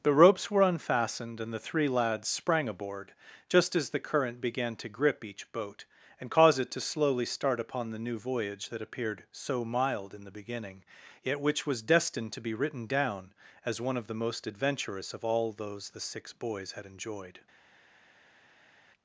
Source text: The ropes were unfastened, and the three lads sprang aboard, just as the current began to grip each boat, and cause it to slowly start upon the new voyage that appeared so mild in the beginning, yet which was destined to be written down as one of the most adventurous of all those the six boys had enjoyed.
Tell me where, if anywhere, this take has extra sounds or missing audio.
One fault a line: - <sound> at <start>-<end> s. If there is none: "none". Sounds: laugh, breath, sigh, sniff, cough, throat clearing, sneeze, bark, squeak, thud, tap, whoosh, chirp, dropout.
none